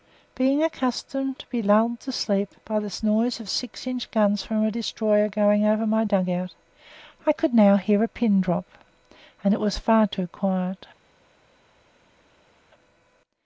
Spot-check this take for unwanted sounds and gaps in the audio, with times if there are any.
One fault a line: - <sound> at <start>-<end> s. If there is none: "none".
none